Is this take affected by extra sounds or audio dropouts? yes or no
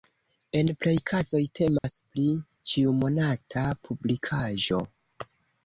yes